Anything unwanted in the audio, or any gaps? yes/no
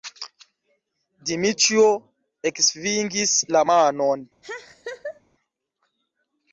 yes